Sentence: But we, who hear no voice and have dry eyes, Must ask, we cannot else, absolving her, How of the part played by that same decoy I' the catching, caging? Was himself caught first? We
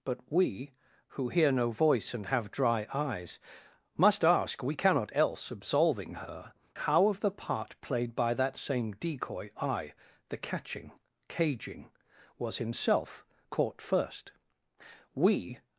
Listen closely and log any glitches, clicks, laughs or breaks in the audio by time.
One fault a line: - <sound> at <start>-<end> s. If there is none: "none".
none